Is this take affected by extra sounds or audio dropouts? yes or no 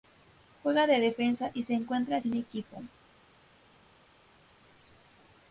no